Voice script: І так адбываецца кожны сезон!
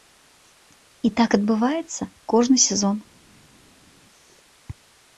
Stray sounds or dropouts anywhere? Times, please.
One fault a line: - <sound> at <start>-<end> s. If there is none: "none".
none